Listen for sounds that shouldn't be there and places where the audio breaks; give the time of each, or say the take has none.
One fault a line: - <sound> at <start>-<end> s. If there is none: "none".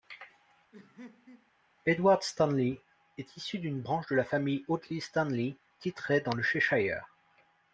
- laugh at 0.7-1.5 s